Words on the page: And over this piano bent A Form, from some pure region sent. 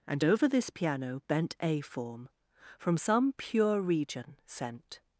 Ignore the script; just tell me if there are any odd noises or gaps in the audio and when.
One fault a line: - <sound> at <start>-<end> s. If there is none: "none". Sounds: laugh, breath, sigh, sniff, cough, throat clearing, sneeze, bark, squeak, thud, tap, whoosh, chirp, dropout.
none